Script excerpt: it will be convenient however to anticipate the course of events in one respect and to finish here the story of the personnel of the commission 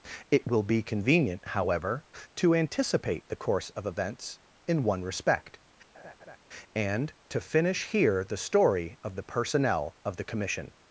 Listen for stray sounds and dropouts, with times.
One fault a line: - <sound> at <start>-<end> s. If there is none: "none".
- laugh at 5.9-6.4 s